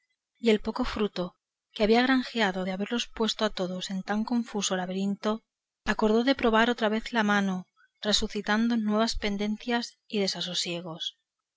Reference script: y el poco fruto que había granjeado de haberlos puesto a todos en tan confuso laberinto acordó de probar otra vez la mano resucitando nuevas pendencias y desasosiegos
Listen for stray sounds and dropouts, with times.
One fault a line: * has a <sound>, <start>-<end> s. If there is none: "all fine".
all fine